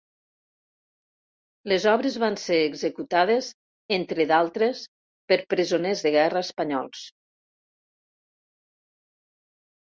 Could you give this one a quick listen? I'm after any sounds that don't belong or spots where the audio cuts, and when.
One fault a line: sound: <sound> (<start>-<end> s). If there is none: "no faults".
no faults